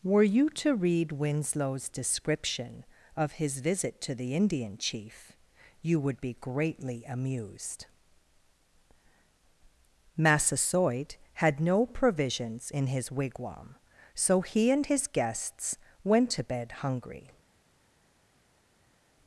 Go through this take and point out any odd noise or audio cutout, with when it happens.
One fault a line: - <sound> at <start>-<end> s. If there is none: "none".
none